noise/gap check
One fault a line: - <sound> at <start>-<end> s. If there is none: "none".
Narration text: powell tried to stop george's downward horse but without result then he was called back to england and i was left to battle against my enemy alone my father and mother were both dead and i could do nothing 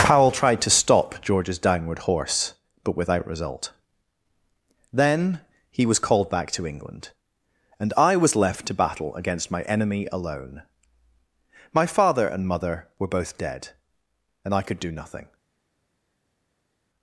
none